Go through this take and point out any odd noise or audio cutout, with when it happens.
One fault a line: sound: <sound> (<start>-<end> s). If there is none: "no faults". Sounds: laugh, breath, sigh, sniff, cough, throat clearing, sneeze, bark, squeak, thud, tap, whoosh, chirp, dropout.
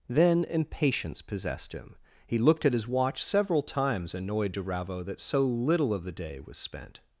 no faults